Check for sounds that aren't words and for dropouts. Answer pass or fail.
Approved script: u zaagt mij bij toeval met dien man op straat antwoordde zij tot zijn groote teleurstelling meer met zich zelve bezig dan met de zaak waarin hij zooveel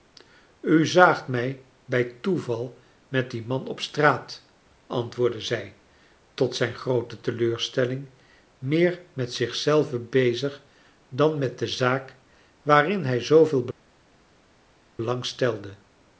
pass